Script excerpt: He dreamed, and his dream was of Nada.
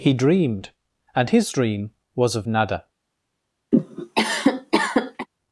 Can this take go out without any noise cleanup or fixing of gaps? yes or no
no